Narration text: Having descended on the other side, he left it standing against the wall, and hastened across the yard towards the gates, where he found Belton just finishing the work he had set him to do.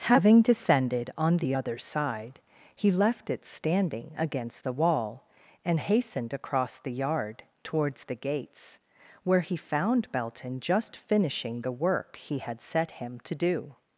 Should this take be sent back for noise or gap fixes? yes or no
no